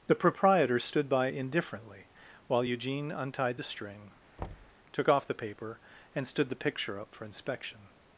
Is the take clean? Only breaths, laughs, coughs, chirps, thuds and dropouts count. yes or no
no